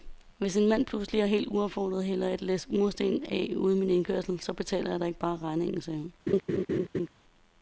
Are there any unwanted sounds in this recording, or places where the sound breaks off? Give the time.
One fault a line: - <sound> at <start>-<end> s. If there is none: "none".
- laugh at 6.3-7.1 s